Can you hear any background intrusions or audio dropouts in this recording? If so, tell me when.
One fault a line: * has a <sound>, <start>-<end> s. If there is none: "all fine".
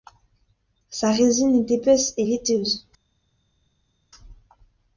all fine